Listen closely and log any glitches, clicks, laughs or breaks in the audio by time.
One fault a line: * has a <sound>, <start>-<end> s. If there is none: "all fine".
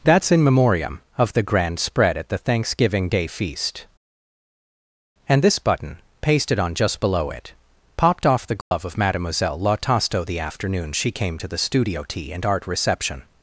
* has a dropout, 8.6-8.7 s